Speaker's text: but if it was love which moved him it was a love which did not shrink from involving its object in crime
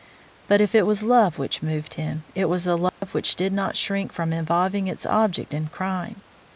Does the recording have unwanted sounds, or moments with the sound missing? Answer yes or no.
yes